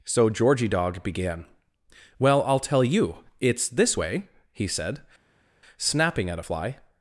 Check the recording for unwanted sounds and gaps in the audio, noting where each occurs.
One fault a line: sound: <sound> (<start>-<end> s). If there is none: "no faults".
no faults